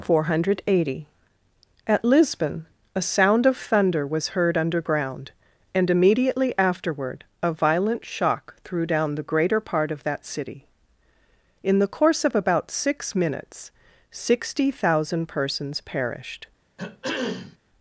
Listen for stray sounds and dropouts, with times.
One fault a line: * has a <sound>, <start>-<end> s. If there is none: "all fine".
* has a throat clearing, 16.8-17.6 s